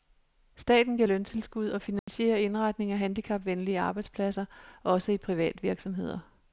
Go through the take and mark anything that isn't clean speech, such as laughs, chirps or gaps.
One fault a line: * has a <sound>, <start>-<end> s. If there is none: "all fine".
* has a dropout, 2.0-2.1 s